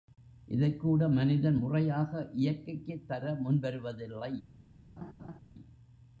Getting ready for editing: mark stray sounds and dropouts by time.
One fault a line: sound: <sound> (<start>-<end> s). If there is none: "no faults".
sound: laugh (5.0-5.4 s)